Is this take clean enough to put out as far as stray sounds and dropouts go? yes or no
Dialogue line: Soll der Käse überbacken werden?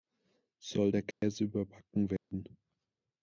no